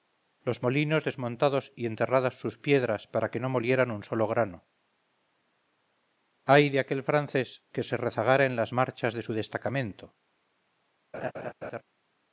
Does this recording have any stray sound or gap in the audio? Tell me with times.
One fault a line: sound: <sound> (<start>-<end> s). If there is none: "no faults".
sound: laugh (11.1-11.8 s)